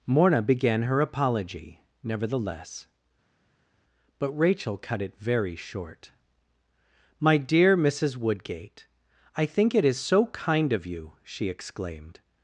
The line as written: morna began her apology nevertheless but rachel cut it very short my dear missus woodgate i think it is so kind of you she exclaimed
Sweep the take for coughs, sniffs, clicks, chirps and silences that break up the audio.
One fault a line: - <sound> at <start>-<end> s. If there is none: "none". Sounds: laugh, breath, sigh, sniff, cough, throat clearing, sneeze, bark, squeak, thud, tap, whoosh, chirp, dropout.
none